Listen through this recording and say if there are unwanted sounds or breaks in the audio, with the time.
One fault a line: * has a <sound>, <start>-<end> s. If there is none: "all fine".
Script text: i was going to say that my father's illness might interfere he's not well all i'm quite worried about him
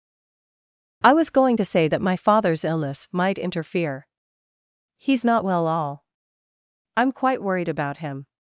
all fine